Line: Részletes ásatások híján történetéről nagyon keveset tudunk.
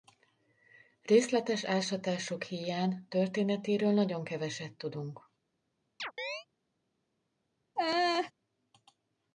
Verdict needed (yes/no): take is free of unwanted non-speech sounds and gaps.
no